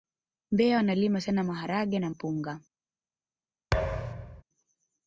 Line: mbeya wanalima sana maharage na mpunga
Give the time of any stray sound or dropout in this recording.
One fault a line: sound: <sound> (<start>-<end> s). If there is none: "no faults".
sound: thud (3.7-4.4 s)